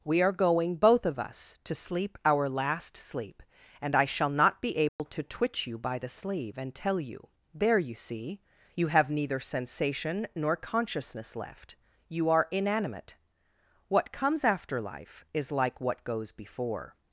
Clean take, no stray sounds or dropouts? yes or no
no